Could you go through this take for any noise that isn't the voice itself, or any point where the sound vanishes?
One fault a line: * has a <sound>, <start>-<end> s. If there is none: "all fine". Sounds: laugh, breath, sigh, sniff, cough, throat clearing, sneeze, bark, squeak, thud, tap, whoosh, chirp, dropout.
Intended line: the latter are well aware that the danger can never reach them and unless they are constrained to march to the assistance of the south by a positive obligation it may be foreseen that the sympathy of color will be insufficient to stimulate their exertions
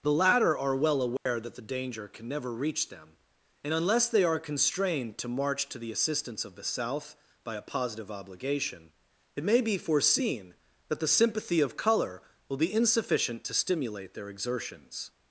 * has a dropout, 1.2-1.3 s